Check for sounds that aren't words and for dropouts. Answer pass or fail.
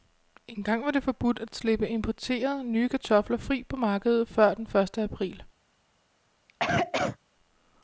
fail